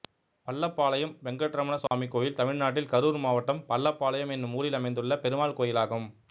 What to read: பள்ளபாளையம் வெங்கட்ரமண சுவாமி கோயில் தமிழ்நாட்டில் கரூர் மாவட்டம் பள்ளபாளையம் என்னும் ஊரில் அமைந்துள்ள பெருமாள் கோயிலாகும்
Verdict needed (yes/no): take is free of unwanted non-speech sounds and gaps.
no